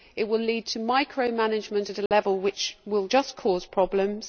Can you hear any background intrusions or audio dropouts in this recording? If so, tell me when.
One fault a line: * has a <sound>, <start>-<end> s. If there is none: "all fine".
* has a dropout, 2.1-2.1 s